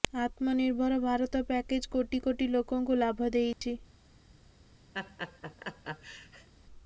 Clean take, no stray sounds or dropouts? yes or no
no